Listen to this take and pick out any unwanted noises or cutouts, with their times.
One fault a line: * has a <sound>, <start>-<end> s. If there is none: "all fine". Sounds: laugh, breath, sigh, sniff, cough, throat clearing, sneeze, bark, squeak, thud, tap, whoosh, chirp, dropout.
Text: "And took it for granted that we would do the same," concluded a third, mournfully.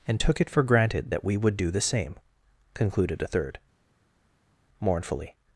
all fine